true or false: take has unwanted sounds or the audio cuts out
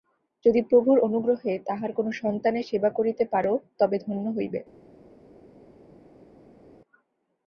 false